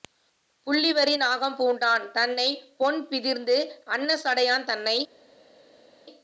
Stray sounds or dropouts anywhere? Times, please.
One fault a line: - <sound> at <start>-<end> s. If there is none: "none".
none